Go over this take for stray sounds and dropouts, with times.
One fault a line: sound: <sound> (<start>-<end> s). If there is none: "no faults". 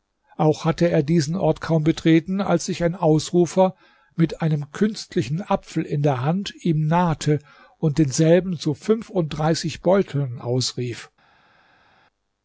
no faults